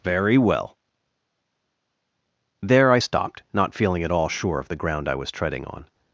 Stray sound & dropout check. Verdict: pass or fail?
pass